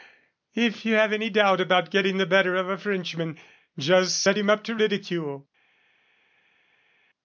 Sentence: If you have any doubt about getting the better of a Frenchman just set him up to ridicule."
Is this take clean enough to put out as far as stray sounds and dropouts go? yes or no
yes